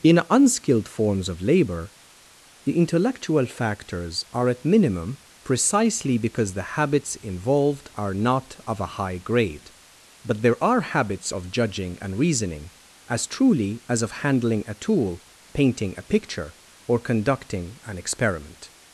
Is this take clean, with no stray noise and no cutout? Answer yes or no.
yes